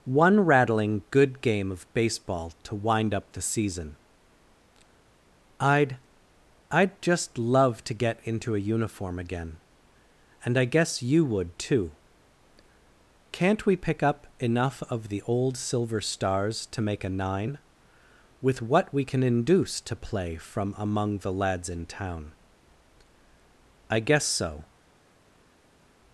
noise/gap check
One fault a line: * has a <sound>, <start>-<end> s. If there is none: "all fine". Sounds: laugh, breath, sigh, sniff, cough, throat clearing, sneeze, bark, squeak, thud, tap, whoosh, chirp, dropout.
all fine